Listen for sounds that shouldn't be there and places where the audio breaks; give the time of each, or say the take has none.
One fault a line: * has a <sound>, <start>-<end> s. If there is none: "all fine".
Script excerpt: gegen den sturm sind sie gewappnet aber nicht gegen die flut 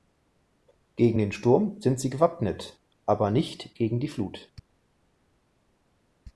all fine